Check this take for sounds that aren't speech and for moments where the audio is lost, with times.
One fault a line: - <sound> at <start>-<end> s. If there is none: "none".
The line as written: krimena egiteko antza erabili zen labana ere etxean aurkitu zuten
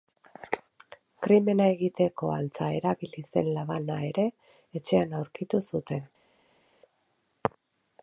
none